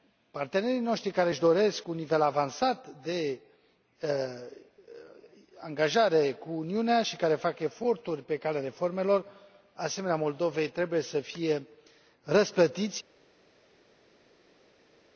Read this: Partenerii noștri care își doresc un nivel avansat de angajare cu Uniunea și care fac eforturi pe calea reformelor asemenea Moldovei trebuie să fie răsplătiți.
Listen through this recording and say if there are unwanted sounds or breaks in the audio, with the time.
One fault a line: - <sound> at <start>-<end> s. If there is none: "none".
none